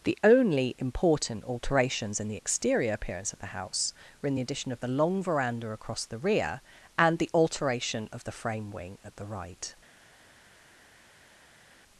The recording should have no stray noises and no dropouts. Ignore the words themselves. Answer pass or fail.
pass